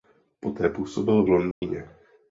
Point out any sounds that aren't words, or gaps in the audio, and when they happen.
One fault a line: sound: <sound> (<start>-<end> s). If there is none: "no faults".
sound: dropout (1.5-1.6 s)